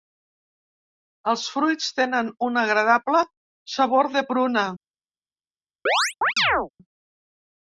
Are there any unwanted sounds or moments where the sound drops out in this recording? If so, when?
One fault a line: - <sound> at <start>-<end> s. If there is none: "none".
- chirp at 5.9-6.7 s